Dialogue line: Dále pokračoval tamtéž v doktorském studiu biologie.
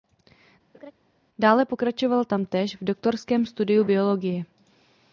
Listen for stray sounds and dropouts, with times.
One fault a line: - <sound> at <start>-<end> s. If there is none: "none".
- laugh at 0.7-0.9 s